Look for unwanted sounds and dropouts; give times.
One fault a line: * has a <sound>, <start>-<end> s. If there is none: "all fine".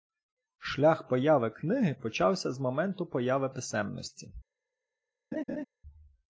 * has a laugh, 5.3-5.6 s